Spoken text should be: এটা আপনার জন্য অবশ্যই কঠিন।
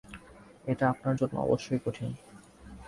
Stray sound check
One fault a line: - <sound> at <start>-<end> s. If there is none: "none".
none